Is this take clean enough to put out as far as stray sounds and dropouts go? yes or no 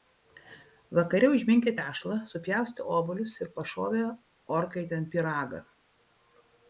yes